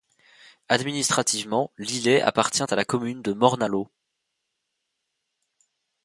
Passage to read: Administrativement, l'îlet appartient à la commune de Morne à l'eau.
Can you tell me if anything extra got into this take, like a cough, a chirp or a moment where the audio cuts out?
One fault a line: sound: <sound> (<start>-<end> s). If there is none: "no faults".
no faults